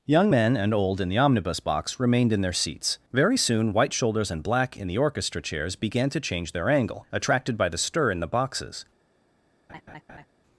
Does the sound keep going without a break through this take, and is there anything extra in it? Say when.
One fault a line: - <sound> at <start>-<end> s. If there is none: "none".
- laugh at 9.7-10.3 s